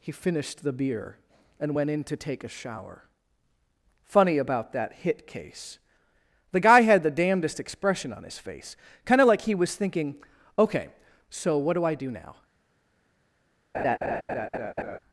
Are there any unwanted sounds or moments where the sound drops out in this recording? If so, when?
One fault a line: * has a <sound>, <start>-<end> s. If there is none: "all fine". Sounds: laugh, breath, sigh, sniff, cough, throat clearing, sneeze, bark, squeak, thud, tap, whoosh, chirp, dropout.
* has a laugh, 13.7-15.0 s